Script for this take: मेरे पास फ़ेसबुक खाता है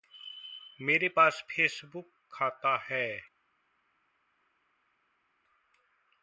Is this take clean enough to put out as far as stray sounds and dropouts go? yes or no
yes